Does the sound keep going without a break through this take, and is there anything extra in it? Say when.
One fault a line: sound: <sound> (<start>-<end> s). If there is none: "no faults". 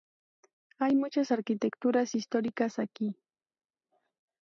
no faults